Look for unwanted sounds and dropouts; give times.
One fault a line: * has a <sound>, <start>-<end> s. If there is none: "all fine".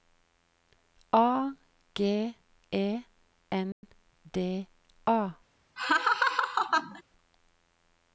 * has a dropout, 3.7-3.8 s
* has a laugh, 5.8-7.0 s